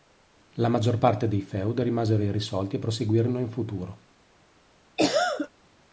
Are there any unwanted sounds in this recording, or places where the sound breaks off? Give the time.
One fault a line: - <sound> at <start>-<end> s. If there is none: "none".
- cough at 5.0-5.5 s